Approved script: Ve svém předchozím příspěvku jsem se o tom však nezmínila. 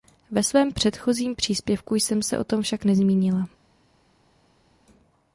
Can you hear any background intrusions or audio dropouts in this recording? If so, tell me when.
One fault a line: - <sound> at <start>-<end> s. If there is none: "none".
none